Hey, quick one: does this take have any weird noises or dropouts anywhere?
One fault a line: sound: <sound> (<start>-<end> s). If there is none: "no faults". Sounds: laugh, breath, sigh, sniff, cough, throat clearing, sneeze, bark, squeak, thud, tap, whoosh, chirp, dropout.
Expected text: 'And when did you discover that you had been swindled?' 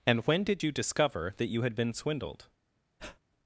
sound: breath (3.0-3.2 s)